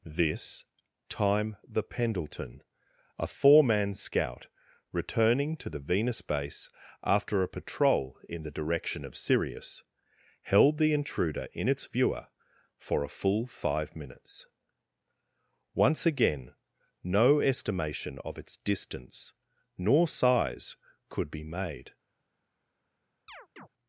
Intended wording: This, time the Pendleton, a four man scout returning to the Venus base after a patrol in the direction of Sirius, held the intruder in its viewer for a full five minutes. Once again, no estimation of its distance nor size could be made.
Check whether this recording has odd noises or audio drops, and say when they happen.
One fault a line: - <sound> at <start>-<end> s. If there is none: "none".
- chirp at 23.3-23.7 s